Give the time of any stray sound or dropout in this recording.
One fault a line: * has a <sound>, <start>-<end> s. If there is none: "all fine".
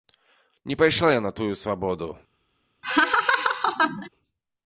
* has a laugh, 2.8-4.1 s